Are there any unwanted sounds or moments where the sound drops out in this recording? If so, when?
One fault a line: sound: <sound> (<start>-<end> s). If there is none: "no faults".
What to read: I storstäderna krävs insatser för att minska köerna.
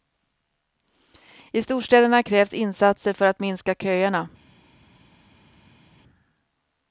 no faults